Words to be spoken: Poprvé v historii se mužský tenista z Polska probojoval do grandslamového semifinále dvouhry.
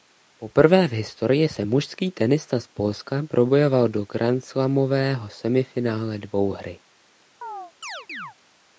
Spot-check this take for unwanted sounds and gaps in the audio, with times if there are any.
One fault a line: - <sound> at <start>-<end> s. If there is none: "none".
- chirp at 7.4-8.4 s